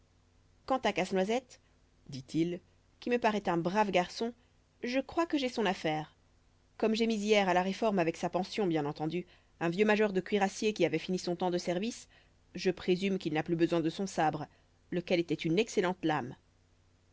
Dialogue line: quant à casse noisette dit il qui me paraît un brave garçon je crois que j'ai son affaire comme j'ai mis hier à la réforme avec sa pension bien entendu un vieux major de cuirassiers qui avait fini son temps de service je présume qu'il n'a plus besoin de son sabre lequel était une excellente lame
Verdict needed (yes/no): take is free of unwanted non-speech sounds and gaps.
yes